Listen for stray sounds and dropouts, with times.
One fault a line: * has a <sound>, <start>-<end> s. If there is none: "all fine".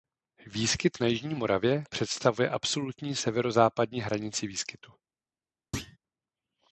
* has a thud, 5.7-6.0 s